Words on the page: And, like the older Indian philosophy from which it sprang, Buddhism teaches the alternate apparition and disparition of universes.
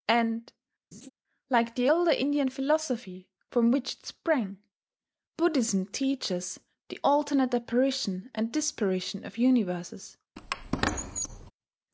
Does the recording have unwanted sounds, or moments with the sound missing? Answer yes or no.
yes